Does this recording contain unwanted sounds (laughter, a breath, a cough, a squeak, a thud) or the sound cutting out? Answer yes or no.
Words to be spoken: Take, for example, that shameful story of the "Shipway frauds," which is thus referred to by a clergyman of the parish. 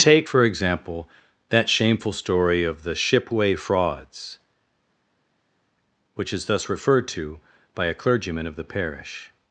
no